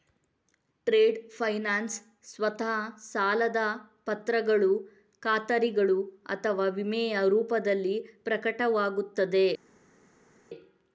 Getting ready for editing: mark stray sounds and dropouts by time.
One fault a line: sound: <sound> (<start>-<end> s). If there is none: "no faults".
no faults